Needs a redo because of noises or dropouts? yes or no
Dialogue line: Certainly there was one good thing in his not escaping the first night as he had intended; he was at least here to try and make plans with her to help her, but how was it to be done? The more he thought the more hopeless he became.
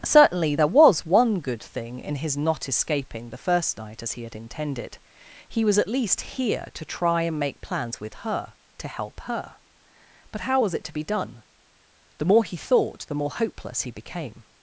no